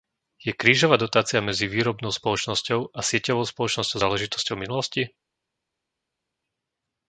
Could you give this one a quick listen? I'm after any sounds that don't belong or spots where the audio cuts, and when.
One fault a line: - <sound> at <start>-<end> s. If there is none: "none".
none